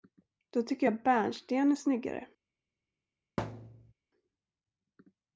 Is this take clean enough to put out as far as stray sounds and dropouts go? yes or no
no